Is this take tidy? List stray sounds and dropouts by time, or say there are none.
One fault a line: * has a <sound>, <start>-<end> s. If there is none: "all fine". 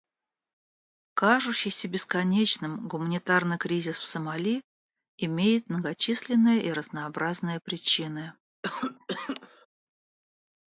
* has a cough, 8.6-9.7 s